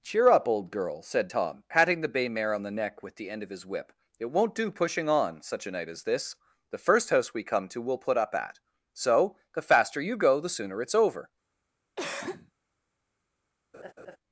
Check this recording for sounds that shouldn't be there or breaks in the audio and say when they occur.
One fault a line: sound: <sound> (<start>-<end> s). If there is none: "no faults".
sound: cough (12.0-12.5 s)
sound: laugh (13.7-14.2 s)